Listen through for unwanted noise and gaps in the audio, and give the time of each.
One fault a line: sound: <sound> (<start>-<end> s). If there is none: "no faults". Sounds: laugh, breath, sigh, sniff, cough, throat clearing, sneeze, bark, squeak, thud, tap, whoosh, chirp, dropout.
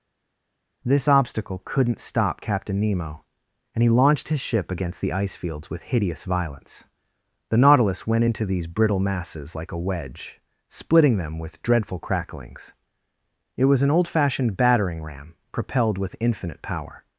no faults